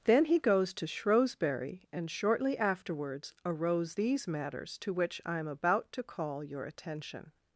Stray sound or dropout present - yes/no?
no